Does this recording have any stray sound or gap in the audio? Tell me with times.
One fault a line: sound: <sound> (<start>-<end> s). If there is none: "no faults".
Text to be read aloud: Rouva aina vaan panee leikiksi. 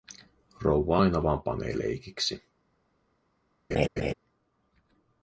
sound: laugh (3.7-4.1 s)